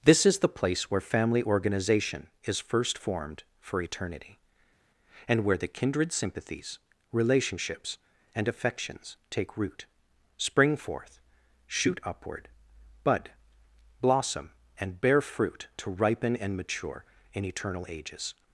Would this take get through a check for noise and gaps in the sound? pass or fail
pass